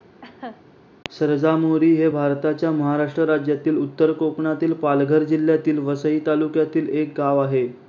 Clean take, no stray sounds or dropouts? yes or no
no